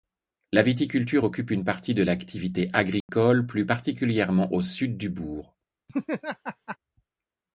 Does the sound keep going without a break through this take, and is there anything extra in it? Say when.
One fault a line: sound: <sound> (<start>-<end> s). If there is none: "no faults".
sound: dropout (3.0-3.1 s)
sound: laugh (5.9-6.8 s)